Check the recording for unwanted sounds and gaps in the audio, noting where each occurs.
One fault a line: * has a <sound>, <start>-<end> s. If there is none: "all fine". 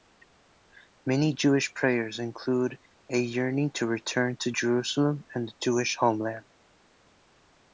all fine